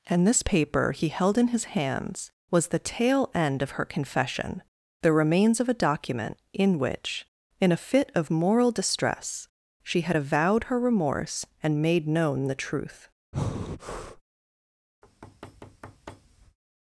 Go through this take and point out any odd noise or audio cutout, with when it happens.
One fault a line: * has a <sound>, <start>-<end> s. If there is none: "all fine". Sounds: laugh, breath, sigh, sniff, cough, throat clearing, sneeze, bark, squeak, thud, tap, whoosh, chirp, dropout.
* has a breath, 13.3-14.2 s
* has a thud, 15.0-16.6 s